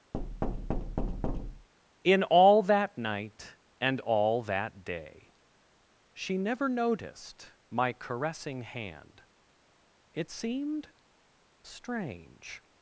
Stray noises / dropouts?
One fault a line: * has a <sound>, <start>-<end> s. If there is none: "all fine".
* has a thud, 0.1-1.7 s